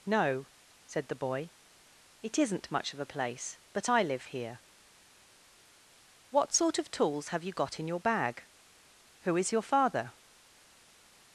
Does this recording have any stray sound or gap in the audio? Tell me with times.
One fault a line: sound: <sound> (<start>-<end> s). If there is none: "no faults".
no faults